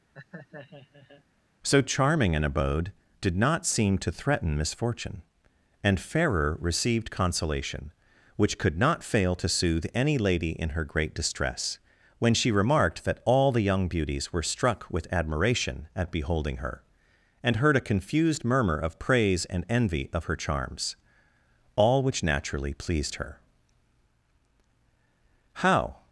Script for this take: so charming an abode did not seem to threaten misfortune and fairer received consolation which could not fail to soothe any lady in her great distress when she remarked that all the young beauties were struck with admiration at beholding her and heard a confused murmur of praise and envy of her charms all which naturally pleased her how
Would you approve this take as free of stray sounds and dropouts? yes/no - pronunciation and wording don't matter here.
no